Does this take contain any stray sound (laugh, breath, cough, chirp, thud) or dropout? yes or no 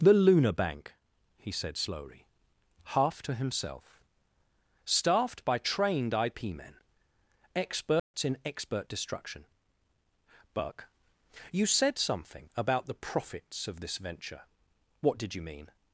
yes